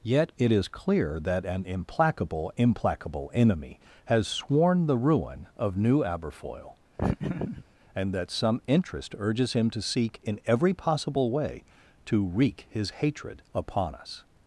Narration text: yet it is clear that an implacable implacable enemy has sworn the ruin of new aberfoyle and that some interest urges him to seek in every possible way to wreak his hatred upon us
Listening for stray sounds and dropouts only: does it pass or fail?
fail